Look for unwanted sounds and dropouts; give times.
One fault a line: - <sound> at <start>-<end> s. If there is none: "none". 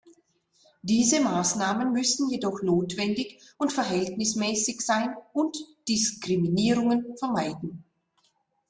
none